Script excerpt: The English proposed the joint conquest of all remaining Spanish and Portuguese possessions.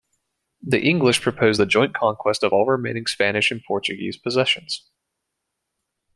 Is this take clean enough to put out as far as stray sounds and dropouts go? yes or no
yes